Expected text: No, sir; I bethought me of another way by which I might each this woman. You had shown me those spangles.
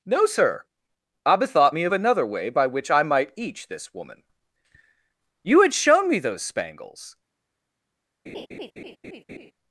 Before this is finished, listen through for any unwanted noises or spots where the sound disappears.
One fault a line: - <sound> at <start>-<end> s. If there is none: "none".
- laugh at 8.3-9.5 s